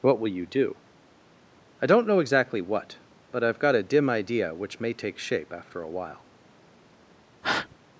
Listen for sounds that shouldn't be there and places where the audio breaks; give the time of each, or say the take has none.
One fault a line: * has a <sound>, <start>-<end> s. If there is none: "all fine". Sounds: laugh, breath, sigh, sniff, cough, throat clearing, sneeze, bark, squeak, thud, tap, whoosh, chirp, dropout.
* has a breath, 7.4-7.8 s